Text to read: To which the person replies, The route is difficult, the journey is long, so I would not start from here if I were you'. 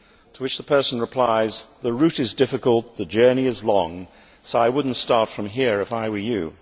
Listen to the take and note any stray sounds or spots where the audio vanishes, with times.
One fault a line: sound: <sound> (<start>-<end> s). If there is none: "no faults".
no faults